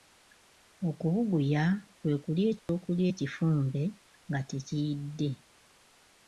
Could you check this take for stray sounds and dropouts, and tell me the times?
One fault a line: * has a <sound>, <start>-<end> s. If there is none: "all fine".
* has a dropout, 2.6-2.7 s